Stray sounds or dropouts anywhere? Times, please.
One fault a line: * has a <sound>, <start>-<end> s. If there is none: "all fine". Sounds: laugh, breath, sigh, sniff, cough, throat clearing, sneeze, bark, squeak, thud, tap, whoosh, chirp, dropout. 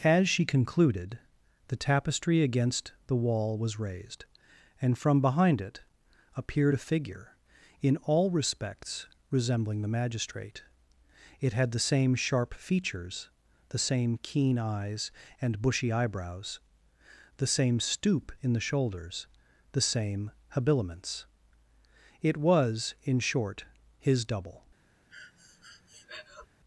* has a breath, 25.1-26.5 s